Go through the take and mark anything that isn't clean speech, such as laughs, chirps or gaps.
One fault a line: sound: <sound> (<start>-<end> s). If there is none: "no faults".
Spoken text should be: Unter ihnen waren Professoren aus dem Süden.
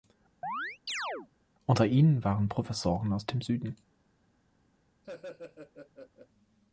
sound: chirp (0.4-1.3 s)
sound: laugh (5.0-6.3 s)